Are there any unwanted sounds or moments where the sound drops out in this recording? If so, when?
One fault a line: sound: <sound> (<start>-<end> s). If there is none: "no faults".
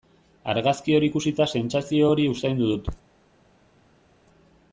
no faults